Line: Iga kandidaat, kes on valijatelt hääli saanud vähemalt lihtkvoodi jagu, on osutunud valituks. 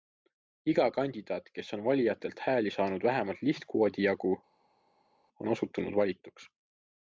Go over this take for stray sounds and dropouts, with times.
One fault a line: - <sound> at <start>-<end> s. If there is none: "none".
none